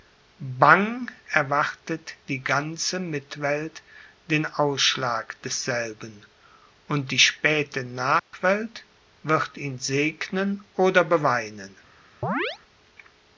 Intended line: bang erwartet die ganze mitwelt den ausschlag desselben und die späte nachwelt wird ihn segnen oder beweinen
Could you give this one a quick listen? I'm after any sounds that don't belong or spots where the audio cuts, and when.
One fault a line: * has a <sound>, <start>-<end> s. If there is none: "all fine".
* has a dropout, 8.2-8.3 s
* has a chirp, 12.2-12.6 s